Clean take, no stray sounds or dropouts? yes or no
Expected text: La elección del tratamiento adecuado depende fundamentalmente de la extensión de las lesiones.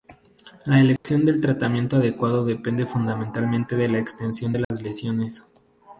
no